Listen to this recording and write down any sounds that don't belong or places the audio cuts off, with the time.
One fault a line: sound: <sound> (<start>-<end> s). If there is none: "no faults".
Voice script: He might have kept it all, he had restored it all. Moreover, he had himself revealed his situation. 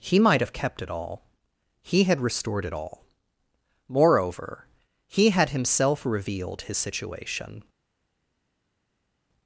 no faults